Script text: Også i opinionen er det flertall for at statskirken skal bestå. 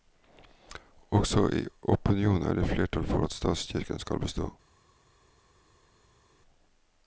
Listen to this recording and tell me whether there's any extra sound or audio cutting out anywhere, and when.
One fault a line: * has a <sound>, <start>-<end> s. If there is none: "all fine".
all fine